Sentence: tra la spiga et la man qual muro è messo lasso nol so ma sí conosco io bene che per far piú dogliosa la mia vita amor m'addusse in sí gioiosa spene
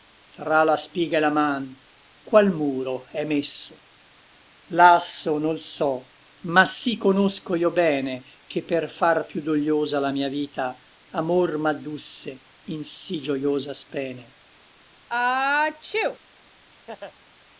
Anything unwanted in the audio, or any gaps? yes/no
yes